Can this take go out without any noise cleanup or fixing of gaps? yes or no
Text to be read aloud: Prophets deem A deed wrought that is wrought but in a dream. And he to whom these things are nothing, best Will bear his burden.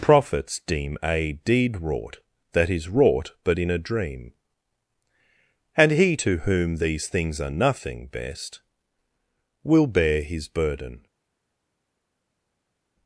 yes